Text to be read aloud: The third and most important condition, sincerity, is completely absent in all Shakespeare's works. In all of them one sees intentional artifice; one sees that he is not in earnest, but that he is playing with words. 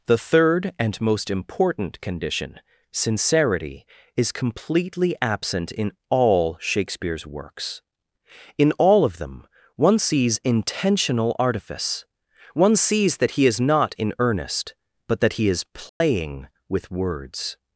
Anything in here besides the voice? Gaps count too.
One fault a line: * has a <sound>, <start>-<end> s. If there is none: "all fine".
* has a dropout, 15.9-16.0 s